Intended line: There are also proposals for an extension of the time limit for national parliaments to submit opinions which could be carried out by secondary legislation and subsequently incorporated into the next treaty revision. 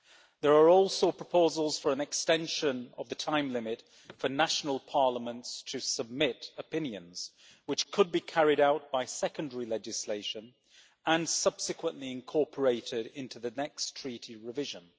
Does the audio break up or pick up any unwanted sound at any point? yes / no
no